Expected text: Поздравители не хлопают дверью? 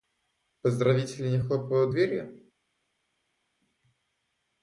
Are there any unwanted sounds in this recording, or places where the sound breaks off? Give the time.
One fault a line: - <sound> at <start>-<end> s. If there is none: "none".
none